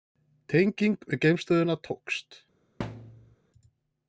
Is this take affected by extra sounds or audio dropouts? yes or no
yes